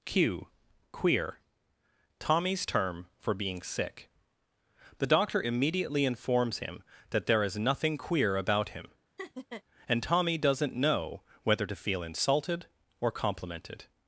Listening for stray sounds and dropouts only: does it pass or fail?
fail